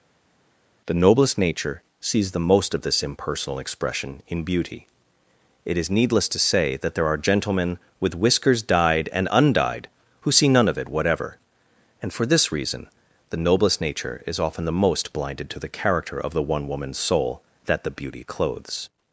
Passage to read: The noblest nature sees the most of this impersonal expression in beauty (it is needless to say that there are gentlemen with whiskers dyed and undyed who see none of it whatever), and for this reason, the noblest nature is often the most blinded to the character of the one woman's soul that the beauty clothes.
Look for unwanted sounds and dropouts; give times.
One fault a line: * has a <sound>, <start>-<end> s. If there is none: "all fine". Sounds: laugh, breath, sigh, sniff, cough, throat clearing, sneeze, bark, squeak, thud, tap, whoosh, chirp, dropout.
all fine